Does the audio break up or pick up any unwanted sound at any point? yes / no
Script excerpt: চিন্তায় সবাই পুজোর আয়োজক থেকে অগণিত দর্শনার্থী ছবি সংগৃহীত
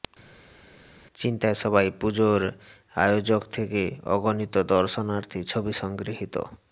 no